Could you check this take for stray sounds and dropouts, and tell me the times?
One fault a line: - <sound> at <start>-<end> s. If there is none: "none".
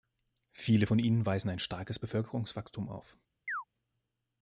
- chirp at 3.5-3.6 s